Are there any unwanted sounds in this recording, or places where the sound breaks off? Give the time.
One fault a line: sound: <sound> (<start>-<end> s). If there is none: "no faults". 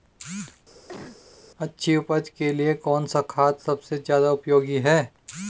sound: cough (0.9-1.2 s)